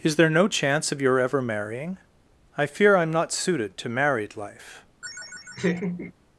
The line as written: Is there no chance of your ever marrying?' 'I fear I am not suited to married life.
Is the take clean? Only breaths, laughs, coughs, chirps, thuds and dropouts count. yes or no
no